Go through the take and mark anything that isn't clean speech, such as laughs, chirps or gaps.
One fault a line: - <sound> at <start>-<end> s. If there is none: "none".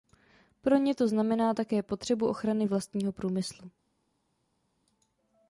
none